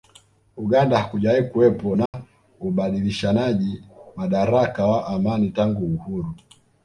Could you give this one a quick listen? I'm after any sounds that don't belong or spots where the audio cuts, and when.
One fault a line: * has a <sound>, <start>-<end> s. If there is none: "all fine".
* has a dropout, 2.1-2.1 s